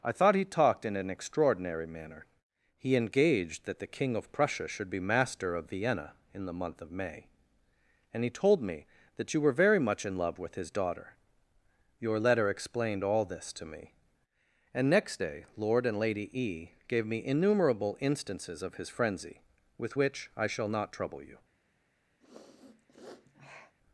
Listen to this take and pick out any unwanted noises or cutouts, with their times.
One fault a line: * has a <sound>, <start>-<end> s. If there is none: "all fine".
* has a sniff, 22.2-23.8 s